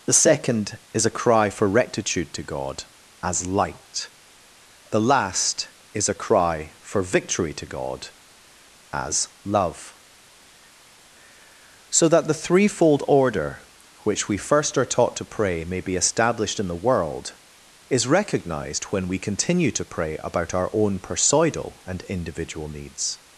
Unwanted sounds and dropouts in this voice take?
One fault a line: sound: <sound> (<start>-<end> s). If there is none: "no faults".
no faults